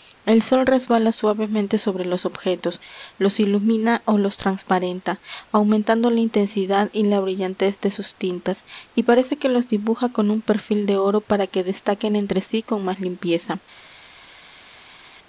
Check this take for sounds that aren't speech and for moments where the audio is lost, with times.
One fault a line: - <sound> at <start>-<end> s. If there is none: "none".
none